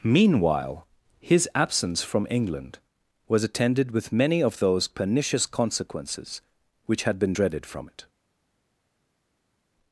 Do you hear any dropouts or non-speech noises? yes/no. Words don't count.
no